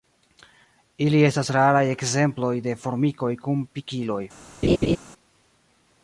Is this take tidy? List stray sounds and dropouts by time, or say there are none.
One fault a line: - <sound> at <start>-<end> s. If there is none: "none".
- laugh at 4.6-5.0 s